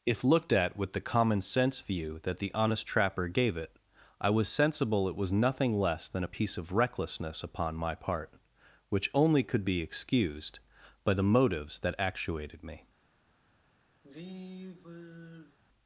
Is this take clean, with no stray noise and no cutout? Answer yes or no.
no